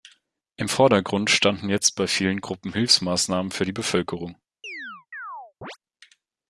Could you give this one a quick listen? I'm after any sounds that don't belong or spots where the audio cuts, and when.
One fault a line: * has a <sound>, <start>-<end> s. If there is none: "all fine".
* has a chirp, 4.6-5.8 s